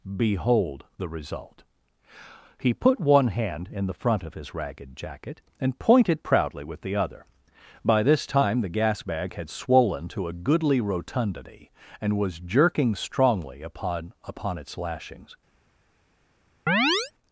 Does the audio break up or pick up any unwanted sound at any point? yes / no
yes